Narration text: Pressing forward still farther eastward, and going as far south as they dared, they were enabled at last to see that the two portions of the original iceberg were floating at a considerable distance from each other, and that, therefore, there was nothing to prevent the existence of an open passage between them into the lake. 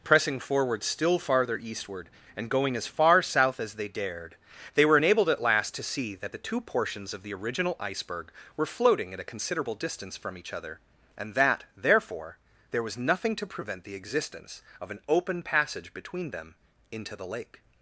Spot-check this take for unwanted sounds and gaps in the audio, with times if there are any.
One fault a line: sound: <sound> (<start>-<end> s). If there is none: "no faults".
no faults